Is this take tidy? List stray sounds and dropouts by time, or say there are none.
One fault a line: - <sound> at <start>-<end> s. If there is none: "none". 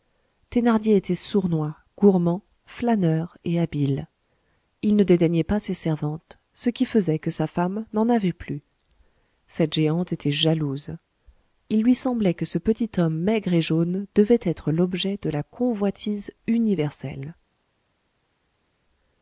none